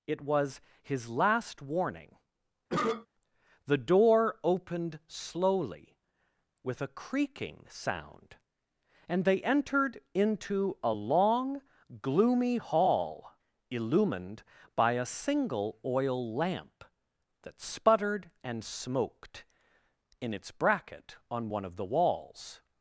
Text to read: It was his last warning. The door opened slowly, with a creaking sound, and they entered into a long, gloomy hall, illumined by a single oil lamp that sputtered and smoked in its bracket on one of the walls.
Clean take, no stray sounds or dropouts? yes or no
no